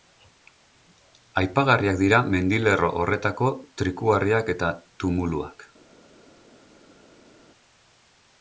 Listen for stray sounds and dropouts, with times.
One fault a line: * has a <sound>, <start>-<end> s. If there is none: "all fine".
all fine